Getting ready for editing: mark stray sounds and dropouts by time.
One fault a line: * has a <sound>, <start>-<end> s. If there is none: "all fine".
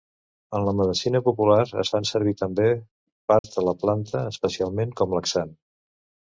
* has a dropout, 3.4-3.4 s